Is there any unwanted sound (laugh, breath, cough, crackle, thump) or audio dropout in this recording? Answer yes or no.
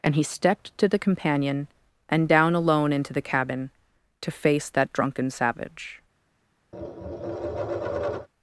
yes